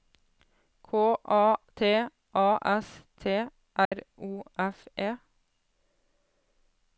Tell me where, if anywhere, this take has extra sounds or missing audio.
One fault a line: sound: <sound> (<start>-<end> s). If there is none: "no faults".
sound: dropout (3.8-3.9 s)